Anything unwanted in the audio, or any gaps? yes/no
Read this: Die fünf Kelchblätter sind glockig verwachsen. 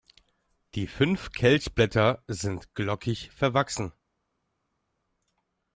no